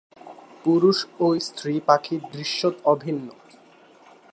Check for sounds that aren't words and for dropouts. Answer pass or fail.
pass